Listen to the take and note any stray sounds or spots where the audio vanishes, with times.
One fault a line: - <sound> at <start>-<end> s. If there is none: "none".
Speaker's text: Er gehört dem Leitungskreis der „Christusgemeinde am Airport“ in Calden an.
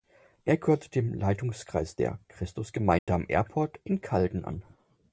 - dropout at 3.0-3.1 s